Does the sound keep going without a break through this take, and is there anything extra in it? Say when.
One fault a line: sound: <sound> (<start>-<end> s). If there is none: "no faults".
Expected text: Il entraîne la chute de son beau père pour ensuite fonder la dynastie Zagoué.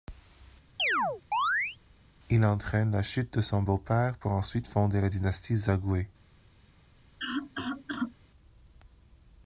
sound: chirp (0.8-1.8 s)
sound: cough (7.2-8.1 s)